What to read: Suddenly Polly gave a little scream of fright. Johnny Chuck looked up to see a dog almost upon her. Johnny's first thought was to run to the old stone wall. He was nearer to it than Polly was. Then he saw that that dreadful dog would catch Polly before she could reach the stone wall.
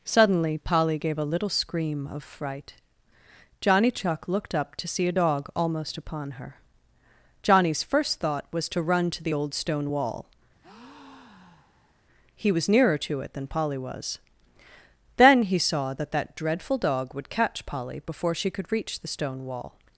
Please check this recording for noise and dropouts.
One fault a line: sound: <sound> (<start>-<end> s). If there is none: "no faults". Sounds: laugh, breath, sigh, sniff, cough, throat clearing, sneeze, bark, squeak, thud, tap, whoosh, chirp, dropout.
sound: breath (10.6-12.0 s)